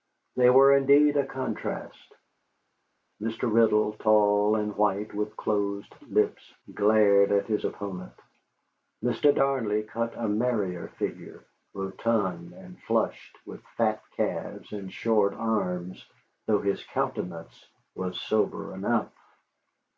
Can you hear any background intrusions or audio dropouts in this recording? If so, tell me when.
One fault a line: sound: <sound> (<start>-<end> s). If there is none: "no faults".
no faults